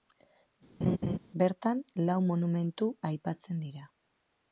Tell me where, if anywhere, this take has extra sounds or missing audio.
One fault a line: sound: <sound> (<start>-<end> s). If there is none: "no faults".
sound: laugh (0.8-1.2 s)